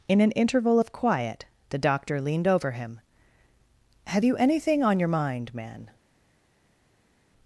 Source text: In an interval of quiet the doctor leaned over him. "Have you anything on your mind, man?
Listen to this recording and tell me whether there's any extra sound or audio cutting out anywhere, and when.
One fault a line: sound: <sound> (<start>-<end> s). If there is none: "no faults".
no faults